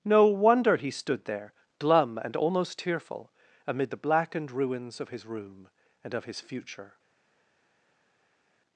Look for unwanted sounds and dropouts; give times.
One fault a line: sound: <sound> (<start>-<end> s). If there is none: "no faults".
no faults